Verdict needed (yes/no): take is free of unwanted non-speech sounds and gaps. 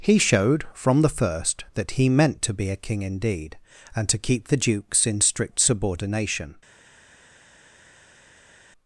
yes